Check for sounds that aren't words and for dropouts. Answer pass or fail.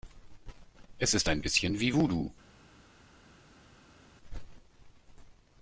pass